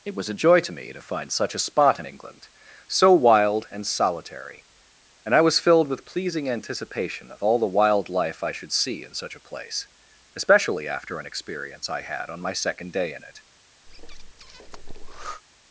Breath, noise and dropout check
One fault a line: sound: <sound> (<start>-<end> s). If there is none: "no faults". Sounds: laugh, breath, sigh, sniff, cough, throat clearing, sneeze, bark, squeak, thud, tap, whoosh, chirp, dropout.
sound: breath (13.9-15.4 s)